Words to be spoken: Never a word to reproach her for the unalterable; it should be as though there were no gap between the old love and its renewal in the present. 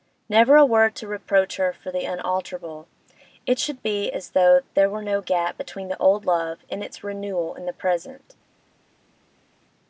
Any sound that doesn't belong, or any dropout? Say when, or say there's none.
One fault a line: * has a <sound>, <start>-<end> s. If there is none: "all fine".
all fine